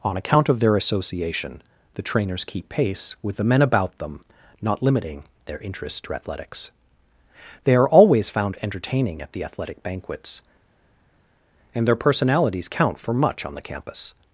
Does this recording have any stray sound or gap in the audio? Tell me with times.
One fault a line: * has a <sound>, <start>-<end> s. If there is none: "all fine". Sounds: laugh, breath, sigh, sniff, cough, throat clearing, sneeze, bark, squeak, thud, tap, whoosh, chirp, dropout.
all fine